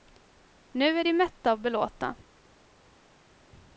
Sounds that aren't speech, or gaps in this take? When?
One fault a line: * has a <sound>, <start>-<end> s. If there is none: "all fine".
all fine